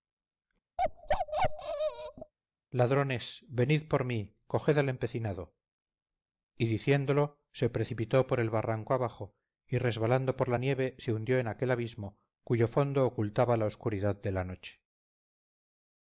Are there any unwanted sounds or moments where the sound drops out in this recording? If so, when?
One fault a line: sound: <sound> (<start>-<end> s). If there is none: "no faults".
sound: bark (0.8-2.3 s)